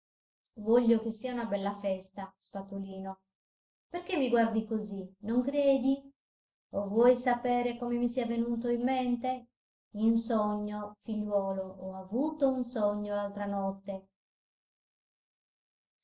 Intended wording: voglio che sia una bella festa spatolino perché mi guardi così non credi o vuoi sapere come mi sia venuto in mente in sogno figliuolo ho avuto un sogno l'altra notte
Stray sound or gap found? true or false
false